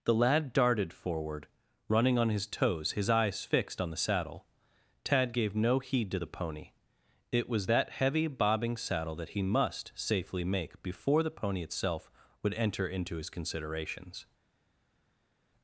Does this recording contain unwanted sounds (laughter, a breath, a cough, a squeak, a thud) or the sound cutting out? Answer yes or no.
no